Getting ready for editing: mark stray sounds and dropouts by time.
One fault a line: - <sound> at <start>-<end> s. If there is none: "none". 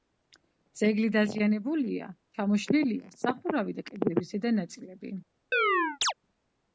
- chirp at 5.5-6.1 s